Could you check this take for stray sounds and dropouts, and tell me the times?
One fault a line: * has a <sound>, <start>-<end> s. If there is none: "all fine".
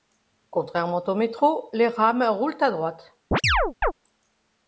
* has a chirp, 3.3-3.9 s